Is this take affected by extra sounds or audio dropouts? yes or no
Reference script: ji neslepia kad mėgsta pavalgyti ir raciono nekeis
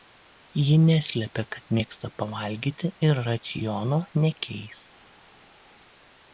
no